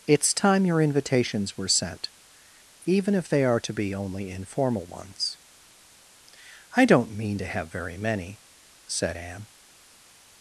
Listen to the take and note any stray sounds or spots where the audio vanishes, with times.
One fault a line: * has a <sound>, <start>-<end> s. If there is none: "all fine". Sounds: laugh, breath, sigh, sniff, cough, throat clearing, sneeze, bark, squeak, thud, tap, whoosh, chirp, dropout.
all fine